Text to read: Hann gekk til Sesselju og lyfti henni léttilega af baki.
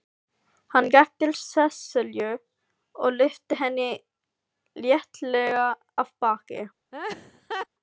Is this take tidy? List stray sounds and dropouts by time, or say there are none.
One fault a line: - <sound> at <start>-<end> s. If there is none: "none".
- laugh at 6.9-7.7 s